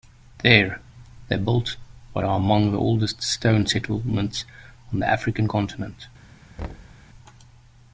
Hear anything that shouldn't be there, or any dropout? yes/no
yes